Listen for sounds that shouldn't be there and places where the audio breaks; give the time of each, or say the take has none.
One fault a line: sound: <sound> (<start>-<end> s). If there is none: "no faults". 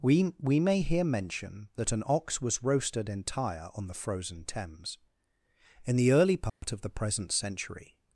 sound: dropout (6.5-6.6 s)